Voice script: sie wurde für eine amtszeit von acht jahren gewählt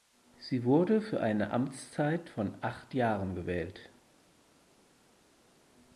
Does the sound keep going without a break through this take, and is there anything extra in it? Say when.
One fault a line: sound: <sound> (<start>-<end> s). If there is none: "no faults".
no faults